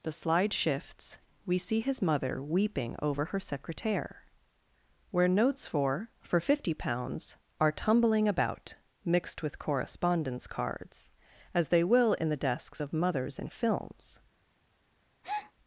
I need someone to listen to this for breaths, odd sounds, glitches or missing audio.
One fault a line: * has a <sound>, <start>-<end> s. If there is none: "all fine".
* has a breath, 15.2-15.5 s